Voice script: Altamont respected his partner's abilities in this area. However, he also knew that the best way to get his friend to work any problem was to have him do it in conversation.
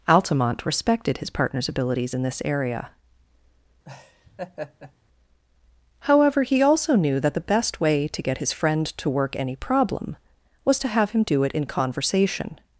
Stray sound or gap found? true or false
true